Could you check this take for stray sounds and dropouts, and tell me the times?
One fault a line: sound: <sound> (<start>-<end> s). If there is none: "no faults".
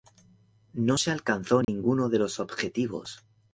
sound: dropout (1.6-1.7 s)